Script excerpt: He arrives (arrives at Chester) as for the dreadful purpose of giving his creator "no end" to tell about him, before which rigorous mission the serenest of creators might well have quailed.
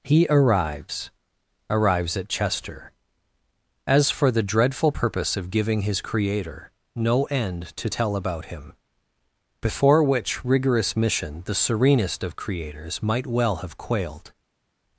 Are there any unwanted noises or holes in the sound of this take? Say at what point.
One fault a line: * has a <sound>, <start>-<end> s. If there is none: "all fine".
all fine